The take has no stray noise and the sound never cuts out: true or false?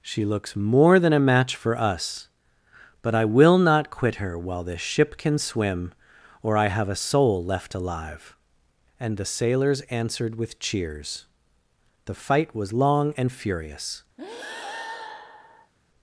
false